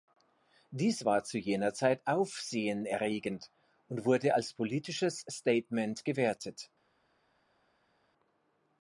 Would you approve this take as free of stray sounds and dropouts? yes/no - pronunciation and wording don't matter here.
yes